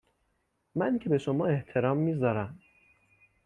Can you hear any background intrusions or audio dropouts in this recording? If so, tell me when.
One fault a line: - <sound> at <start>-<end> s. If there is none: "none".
none